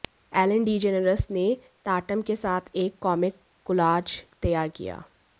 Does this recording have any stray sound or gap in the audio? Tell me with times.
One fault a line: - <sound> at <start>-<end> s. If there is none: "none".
none